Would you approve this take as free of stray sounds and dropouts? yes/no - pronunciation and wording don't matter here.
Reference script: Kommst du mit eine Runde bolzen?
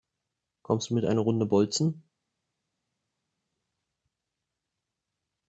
yes